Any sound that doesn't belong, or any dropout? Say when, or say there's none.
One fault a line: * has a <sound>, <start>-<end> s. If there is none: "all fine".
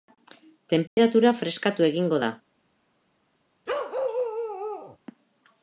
* has a dropout, 0.9-1.0 s
* has a bark, 3.7-5.0 s